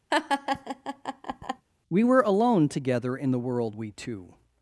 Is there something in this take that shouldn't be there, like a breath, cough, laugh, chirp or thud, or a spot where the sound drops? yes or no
yes